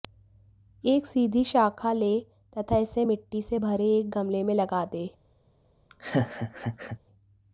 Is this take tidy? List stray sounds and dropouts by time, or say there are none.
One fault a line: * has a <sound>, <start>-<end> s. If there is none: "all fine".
* has a laugh, 5.9-7.0 s